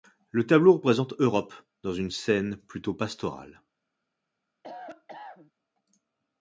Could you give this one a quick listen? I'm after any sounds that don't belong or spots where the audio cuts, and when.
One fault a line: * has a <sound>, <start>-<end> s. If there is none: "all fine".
* has a cough, 4.6-5.5 s